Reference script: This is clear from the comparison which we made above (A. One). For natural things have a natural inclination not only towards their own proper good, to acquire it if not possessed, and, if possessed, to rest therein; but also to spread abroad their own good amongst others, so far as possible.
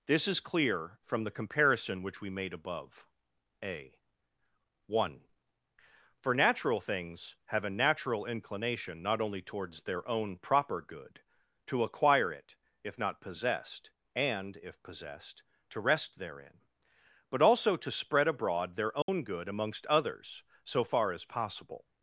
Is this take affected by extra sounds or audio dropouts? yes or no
yes